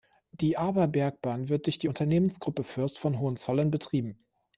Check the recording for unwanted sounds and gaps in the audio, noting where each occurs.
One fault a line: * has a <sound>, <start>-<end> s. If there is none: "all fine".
all fine